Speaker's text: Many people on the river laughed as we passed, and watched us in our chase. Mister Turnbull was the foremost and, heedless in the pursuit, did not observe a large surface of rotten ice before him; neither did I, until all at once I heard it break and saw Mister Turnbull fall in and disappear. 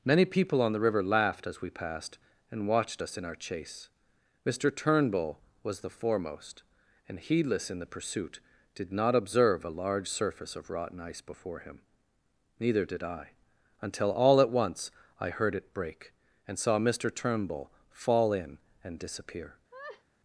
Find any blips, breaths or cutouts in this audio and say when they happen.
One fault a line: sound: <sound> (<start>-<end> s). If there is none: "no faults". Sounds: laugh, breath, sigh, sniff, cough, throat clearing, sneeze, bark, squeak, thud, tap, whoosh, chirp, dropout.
sound: laugh (19.7-20.0 s)